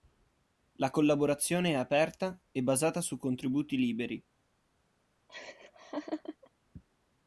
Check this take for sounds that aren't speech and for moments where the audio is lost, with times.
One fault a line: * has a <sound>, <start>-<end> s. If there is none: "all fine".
* has a laugh, 5.3-6.5 s